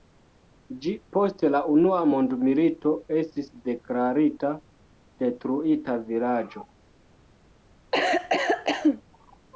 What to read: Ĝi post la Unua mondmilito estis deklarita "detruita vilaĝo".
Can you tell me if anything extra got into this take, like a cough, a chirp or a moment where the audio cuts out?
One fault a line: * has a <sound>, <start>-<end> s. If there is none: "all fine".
* has a cough, 7.9-9.0 s